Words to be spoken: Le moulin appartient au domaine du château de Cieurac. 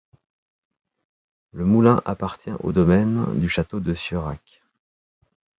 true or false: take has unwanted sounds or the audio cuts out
false